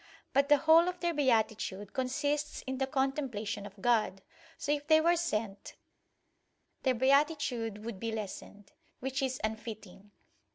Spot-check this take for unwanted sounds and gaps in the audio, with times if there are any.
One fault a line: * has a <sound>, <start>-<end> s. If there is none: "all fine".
all fine